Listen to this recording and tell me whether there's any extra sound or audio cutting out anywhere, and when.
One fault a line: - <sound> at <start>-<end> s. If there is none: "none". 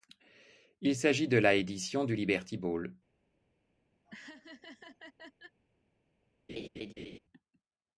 - laugh at 4.0-5.6 s
- laugh at 6.5-7.2 s